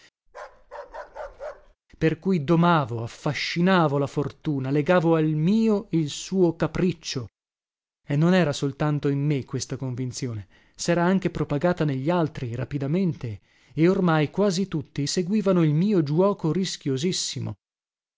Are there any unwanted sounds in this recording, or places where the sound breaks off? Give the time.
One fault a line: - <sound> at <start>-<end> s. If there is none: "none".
- bark at 0.3-1.8 s